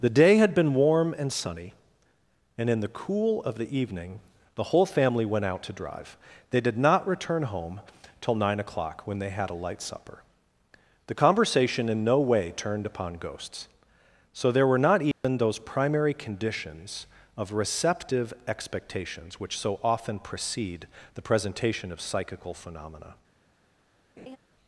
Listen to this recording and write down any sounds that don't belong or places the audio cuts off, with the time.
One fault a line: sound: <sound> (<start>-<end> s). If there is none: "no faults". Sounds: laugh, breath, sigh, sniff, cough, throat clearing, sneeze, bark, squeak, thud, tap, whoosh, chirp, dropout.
sound: dropout (15.1-15.2 s)
sound: laugh (24.2-24.4 s)